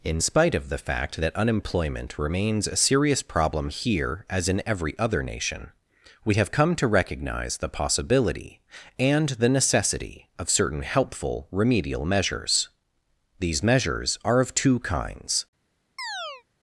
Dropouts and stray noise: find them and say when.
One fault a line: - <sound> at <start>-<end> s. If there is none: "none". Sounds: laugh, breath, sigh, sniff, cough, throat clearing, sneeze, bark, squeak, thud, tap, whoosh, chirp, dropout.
- chirp at 16.0-16.4 s